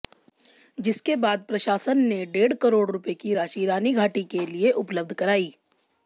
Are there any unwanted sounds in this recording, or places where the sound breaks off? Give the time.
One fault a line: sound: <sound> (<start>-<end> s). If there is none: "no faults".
no faults